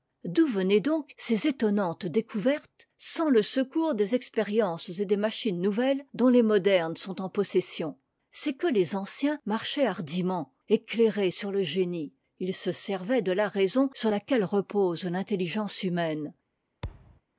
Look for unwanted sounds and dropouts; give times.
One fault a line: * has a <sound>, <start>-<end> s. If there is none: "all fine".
* has a thud, 16.8-17.2 s